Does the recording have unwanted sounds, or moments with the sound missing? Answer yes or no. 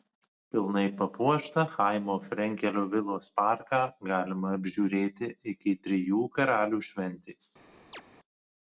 yes